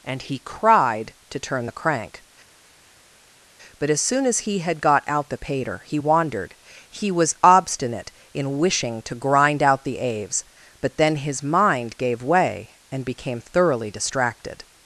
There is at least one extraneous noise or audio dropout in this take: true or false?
false